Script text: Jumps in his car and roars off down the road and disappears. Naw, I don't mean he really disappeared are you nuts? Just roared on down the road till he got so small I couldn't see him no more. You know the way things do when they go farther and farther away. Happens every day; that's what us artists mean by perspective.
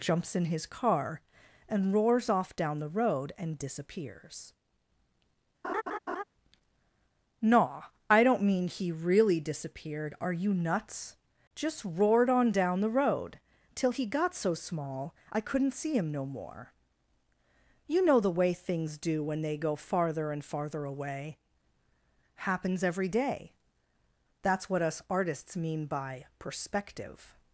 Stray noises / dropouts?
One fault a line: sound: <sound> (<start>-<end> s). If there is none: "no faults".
sound: laugh (5.6-6.2 s)